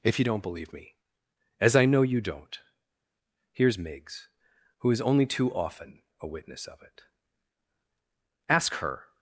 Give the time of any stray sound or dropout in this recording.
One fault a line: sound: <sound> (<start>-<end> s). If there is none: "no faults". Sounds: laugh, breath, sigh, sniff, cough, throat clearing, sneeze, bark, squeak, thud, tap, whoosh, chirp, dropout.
no faults